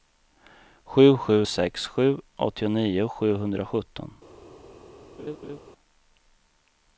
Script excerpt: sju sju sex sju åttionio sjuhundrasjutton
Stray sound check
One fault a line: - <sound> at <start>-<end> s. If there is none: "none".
- laugh at 5.2-5.6 s